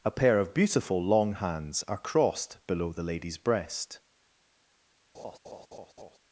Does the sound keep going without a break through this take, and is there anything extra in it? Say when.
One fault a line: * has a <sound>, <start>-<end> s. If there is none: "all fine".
* has a laugh, 5.1-6.2 s